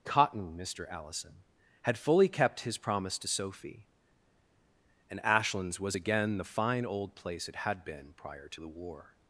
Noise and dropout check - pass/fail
pass